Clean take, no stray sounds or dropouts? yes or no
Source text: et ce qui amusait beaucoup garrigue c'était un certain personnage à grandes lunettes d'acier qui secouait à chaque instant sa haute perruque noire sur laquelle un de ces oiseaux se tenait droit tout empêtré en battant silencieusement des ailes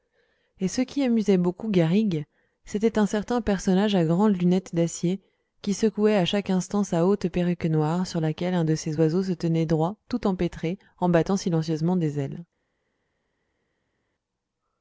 yes